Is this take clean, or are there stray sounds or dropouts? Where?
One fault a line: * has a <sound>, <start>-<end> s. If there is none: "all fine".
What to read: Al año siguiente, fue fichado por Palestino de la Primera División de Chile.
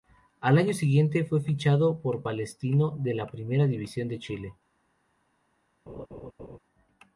* has a laugh, 5.9-6.6 s